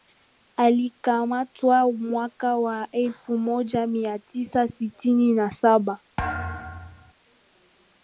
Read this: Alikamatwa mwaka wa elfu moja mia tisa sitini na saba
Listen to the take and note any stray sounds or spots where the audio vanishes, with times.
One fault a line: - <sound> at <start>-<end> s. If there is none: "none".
- thud at 6.2-7.1 s